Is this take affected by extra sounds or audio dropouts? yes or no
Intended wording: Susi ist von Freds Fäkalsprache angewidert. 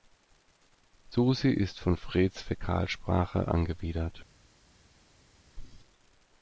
no